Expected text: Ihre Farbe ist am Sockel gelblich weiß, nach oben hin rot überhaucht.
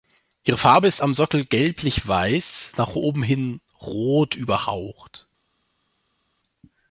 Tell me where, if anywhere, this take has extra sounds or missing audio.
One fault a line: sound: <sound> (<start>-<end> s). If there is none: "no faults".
no faults